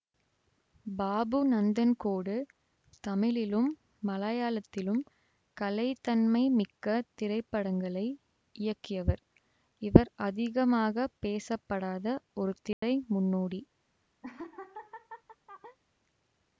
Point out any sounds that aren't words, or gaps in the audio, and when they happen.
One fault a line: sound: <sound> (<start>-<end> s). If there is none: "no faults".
sound: dropout (12.7-12.8 s)
sound: laugh (14.2-15.8 s)